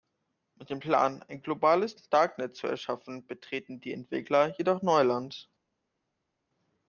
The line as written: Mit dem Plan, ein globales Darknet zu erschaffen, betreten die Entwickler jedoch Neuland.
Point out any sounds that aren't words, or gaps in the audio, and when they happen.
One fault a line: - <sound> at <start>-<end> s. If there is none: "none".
none